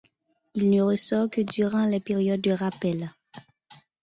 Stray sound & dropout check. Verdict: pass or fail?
pass